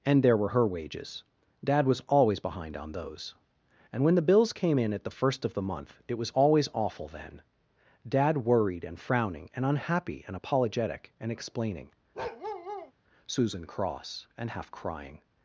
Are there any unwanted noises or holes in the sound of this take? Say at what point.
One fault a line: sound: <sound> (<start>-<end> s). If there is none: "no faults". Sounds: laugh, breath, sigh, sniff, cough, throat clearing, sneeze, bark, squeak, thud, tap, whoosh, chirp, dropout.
sound: bark (12.1-12.9 s)